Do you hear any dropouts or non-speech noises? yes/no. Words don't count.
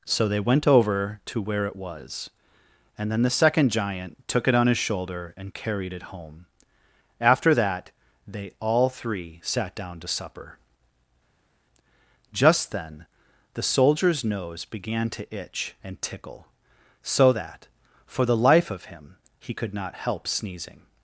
no